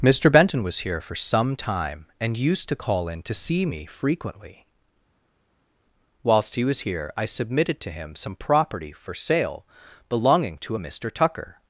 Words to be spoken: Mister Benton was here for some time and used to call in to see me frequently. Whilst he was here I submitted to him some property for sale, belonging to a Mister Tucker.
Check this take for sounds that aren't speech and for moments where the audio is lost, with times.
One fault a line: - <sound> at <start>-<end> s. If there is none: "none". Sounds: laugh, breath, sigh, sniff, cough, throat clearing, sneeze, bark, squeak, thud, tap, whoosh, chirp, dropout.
none